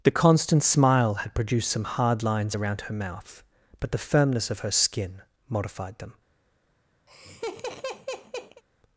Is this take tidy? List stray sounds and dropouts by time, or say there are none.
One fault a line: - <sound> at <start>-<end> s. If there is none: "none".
- laugh at 7.1-8.6 s